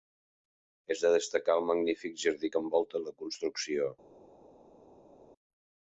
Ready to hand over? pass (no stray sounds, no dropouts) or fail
pass